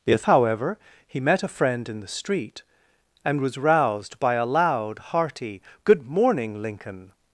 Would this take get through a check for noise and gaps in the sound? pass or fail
pass